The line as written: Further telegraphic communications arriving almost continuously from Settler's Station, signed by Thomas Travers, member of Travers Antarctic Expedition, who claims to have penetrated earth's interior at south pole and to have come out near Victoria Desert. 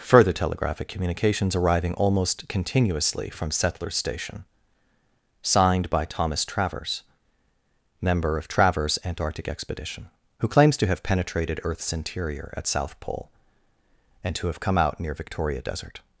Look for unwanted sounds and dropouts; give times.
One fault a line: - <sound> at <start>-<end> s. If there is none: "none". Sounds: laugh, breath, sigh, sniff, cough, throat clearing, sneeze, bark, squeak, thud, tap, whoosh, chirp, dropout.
none